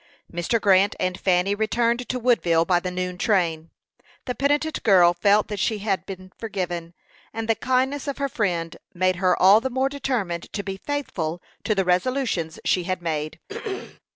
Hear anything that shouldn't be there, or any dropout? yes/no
yes